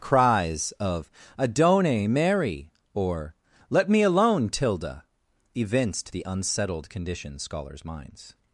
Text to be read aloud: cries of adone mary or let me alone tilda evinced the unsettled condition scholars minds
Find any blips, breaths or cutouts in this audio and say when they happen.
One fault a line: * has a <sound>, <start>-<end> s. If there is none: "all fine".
all fine